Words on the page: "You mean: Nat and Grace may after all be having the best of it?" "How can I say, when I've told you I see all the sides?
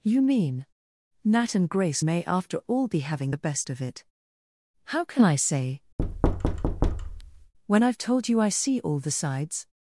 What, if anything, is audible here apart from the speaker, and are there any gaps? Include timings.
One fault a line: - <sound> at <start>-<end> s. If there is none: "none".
- thud at 6.0-7.5 s